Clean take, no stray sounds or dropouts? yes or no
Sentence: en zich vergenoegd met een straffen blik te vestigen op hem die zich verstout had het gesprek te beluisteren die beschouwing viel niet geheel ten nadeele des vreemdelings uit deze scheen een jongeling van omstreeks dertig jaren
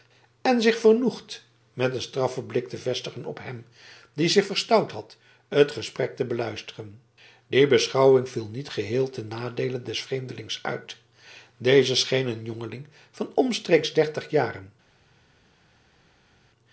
yes